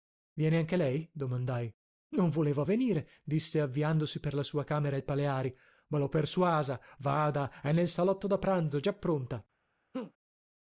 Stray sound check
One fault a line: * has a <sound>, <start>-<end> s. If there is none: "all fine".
* has a laugh, 9.9-10.1 s